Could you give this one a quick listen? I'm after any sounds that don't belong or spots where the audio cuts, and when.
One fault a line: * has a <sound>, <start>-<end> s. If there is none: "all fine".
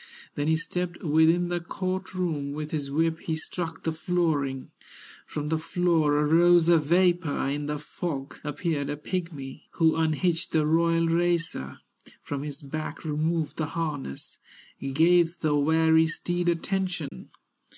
* has a dropout, 17.1-17.1 s